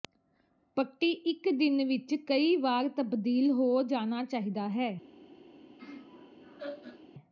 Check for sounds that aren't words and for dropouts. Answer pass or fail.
fail